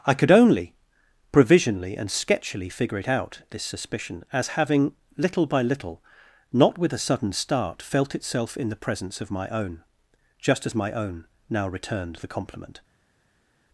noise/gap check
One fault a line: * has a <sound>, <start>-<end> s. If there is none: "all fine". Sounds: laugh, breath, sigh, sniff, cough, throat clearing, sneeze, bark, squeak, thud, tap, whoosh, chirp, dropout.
all fine